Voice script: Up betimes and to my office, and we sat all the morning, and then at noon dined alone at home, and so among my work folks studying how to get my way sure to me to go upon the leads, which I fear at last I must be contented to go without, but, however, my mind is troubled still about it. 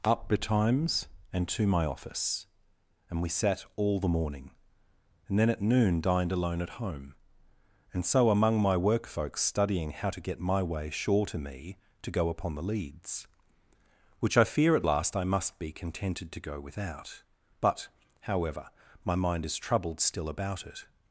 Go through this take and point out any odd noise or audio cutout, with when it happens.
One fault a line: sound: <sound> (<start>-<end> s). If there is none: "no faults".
no faults